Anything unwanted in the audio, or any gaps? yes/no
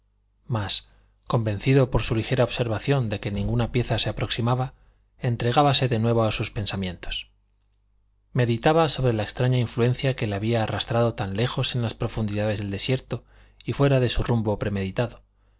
no